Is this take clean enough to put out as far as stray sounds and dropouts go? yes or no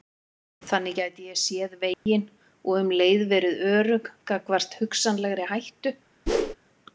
no